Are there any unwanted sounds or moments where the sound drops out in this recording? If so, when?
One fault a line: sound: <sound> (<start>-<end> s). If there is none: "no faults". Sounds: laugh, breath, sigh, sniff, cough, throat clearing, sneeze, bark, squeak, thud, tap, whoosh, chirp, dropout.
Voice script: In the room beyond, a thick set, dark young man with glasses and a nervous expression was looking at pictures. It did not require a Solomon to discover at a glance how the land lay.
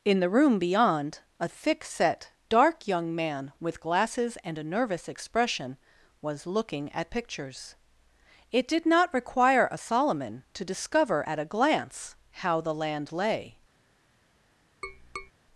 sound: tap (14.8-15.3 s)